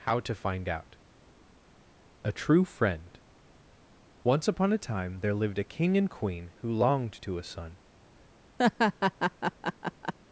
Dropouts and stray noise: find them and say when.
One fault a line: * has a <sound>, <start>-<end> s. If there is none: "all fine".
* has a laugh, 8.6-10.1 s